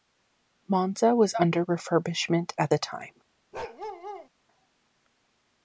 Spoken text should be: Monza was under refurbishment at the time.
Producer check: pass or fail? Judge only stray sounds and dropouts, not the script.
fail